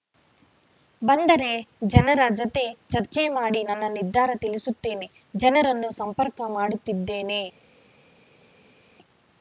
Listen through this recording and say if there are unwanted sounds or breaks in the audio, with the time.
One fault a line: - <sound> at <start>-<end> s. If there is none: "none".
none